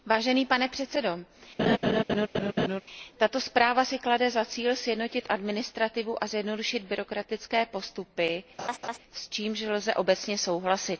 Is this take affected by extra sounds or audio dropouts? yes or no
yes